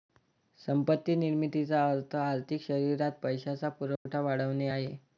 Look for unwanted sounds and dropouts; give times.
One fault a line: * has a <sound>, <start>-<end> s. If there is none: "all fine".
* has a dropout, 4.0-4.1 s